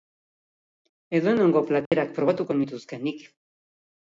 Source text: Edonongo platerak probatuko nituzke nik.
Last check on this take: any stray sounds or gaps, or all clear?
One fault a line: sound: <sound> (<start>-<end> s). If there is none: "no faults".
sound: dropout (1.9-1.9 s)